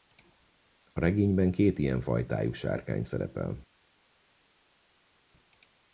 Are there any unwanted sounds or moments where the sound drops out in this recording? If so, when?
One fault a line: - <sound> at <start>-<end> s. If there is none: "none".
none